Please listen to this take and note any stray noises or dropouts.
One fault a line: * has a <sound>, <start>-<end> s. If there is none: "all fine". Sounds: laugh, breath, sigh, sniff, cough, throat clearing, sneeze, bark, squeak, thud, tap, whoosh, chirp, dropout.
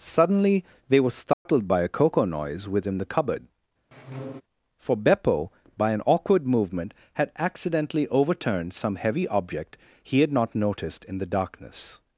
* has a dropout, 1.3-1.5 s
* has a squeak, 3.9-4.4 s